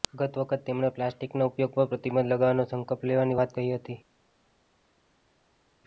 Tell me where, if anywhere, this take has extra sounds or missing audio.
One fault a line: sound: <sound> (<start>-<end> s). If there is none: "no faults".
no faults